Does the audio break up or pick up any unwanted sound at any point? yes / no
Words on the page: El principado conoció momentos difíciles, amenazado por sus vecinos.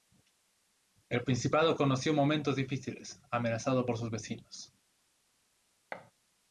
yes